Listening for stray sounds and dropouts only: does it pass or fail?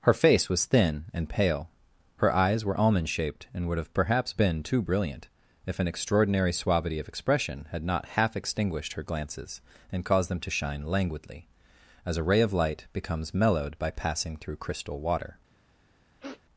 fail